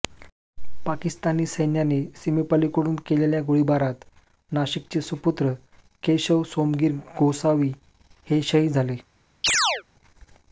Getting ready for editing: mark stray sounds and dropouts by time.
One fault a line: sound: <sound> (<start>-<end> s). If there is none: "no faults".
sound: chirp (9.4-9.8 s)